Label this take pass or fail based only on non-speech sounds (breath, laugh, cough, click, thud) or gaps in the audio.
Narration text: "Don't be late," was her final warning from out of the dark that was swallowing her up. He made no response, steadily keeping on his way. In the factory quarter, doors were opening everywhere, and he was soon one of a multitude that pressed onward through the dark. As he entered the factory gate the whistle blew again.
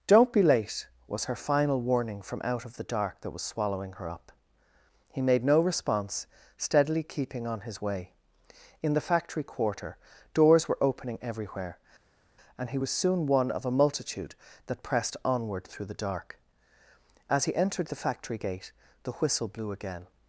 pass